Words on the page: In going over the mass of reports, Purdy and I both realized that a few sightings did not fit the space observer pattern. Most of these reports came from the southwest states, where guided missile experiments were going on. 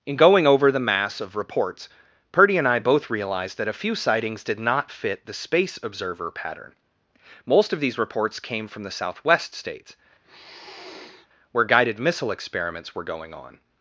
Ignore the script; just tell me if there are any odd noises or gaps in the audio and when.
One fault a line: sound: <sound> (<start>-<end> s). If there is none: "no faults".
sound: sniff (10.2-11.3 s)